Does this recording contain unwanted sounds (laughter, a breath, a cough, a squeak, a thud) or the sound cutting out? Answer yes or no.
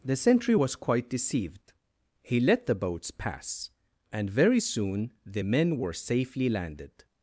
no